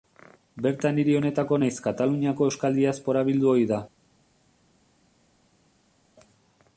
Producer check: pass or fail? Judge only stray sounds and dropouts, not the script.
pass